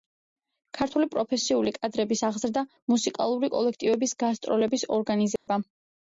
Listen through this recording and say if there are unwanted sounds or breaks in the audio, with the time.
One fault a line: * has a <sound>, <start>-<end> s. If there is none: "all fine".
* has a dropout, 5.4-5.5 s